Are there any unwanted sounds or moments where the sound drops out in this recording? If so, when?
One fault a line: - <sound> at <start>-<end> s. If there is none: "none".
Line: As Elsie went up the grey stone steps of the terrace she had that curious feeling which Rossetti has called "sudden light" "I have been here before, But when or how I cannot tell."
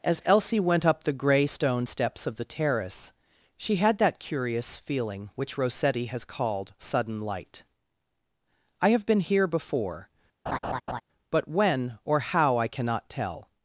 - laugh at 10.5-11.0 s